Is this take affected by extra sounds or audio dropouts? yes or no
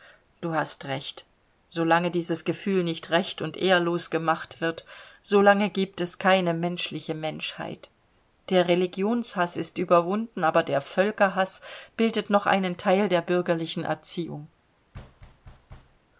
yes